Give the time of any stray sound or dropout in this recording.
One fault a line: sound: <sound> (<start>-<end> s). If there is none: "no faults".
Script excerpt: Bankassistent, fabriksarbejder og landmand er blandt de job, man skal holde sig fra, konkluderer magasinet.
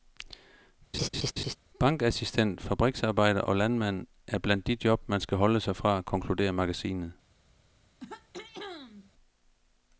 sound: laugh (0.9-1.6 s)
sound: throat clearing (8.0-9.1 s)